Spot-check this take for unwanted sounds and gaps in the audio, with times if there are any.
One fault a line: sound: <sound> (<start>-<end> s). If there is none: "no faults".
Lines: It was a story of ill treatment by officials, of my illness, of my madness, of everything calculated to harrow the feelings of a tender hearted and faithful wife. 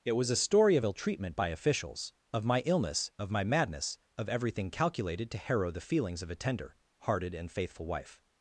no faults